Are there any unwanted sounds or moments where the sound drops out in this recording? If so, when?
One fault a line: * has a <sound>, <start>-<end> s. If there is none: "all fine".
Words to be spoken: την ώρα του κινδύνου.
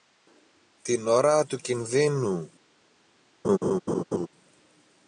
* has a laugh, 3.4-4.3 s